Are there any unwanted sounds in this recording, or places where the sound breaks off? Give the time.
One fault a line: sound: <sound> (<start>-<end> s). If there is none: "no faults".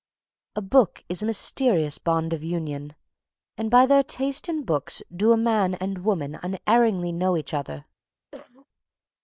sound: cough (8.3-8.7 s)